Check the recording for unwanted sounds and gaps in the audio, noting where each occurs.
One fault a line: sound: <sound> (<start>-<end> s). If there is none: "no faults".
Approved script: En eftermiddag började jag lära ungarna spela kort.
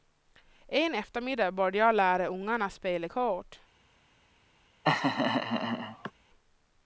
sound: laugh (4.8-6.1 s)